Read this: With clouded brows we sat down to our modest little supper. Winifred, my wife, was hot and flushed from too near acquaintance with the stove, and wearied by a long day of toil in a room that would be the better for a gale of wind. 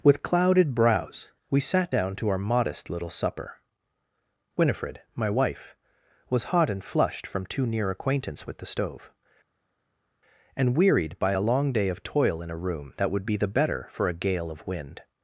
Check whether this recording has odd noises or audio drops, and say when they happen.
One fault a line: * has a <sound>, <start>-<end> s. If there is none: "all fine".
all fine